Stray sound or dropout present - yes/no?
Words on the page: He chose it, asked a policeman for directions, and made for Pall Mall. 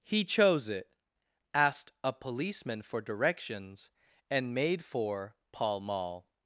no